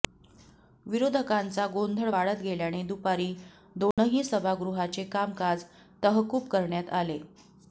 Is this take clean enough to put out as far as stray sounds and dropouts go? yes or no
no